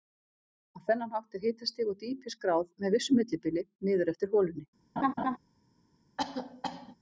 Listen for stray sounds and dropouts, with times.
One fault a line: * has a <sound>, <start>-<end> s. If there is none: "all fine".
* has a laugh, 5.0-5.4 s
* has a cough, 6.2-7.0 s